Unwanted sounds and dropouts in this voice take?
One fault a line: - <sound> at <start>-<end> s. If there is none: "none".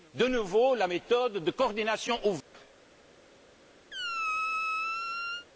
- dropout at 2.4-2.5 s
- squeak at 3.9-5.5 s